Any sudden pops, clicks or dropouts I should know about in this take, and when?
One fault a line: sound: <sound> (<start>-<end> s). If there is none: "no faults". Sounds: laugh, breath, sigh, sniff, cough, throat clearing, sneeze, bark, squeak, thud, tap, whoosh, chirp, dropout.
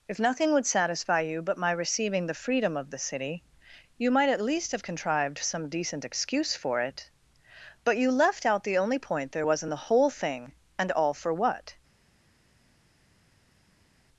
no faults